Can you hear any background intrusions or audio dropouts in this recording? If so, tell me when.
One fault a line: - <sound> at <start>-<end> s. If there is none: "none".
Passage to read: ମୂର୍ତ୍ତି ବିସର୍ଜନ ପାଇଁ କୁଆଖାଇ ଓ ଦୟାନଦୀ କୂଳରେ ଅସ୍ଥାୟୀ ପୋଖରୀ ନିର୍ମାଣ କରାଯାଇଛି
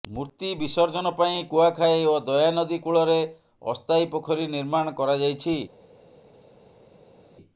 none